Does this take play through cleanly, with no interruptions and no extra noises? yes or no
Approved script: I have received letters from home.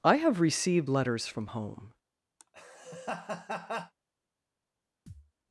no